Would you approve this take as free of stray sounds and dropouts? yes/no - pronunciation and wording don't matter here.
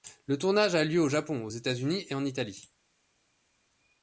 yes